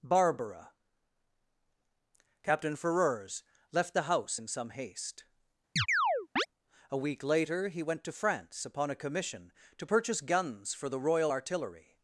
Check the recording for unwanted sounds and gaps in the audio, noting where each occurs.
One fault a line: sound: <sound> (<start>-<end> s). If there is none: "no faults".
sound: chirp (5.8-6.5 s)